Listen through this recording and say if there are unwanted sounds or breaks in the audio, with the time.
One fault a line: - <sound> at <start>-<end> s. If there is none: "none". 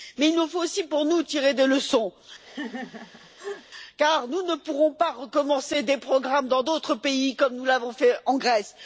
- laugh at 2.4-3.7 s